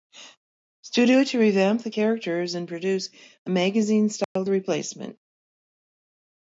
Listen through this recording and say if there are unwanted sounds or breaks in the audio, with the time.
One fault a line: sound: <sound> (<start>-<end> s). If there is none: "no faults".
sound: dropout (4.2-4.4 s)